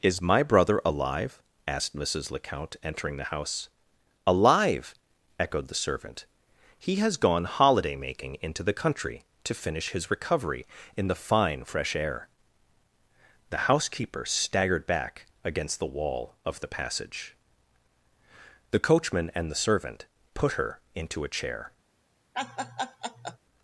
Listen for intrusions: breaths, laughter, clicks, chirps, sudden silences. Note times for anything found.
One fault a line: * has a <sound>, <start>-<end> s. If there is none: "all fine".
* has a laugh, 22.3-23.4 s